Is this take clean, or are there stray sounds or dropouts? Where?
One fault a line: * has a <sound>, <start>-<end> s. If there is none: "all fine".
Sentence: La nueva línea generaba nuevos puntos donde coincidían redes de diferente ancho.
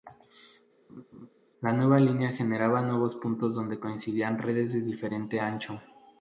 * has a laugh, 0.9-1.3 s